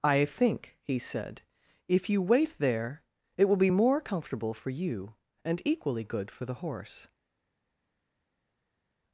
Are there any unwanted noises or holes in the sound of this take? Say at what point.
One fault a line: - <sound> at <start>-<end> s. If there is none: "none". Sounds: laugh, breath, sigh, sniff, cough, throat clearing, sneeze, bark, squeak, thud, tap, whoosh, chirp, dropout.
none